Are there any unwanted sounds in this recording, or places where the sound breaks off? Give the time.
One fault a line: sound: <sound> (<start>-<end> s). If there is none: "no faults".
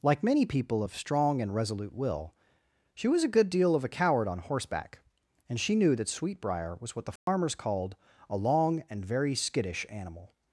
sound: dropout (7.2-7.3 s)